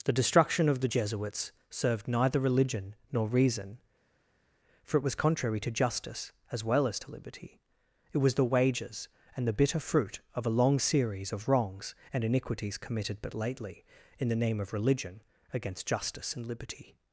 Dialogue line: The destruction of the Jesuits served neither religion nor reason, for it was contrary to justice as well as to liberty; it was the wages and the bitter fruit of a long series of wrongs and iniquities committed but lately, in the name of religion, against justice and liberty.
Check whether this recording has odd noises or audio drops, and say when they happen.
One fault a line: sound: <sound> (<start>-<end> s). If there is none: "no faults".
no faults